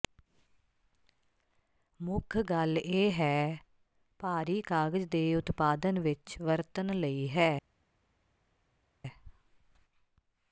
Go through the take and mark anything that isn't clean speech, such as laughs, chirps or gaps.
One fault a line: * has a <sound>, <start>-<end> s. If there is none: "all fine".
all fine